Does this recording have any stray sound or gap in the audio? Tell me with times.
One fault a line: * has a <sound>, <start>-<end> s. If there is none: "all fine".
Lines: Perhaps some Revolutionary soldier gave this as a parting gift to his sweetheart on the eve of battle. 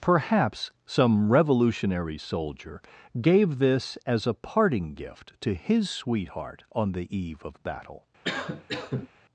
* has a cough, 8.2-9.1 s